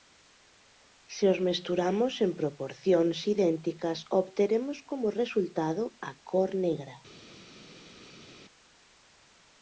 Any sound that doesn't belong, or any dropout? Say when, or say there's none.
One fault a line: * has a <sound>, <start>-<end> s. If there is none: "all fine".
all fine